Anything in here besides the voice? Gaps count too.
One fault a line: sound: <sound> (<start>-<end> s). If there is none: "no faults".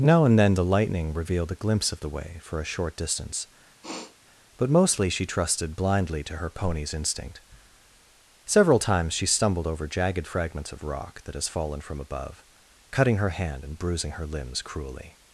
sound: sniff (3.8-4.2 s)